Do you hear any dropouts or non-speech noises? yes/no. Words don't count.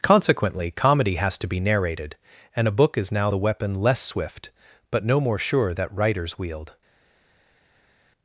no